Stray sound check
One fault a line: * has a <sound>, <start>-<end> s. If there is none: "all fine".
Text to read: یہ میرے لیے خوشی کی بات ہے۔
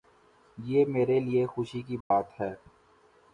* has a dropout, 2.0-2.1 s